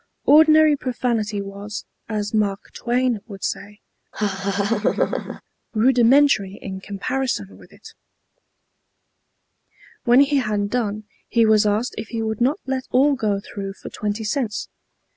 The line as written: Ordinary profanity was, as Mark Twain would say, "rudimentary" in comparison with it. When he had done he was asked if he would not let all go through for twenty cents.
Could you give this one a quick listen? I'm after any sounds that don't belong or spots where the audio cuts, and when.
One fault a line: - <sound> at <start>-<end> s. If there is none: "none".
- laugh at 4.1-5.4 s